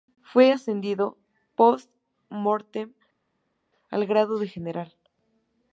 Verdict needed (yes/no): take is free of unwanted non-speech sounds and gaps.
yes